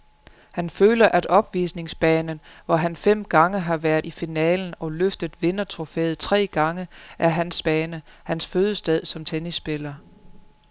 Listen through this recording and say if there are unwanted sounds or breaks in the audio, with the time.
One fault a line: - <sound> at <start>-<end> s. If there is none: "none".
none